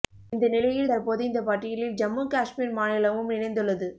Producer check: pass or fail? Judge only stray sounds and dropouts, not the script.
pass